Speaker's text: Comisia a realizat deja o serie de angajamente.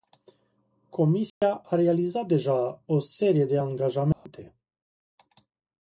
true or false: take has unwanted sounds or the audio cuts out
true